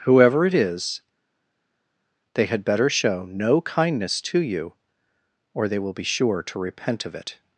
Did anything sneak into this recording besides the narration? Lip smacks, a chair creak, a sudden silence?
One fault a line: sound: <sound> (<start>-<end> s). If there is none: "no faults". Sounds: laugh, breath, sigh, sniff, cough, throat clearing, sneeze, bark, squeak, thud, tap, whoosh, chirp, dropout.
no faults